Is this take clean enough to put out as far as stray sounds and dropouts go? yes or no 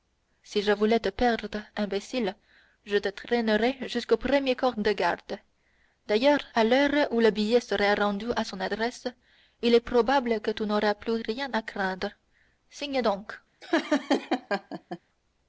no